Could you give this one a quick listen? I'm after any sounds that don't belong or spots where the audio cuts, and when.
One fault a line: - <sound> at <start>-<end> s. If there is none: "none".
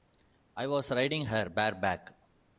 none